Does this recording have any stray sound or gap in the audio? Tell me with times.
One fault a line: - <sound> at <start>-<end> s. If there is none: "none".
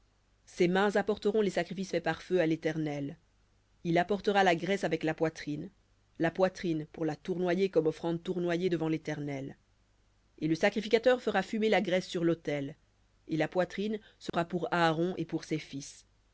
- dropout at 14.3-14.3 s